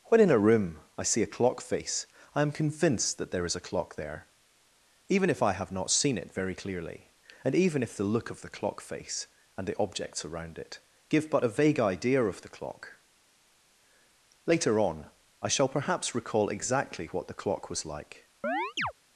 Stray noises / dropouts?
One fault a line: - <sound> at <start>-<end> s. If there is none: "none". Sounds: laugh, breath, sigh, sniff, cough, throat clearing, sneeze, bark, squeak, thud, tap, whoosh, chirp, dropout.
- chirp at 18.4-18.9 s